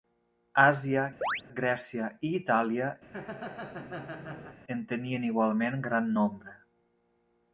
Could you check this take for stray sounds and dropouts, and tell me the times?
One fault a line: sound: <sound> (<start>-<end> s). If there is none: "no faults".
sound: chirp (1.2-1.4 s)
sound: laugh (3.0-4.6 s)